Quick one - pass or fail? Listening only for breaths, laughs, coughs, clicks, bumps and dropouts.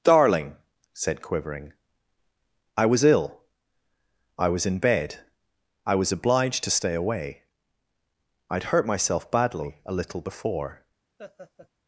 fail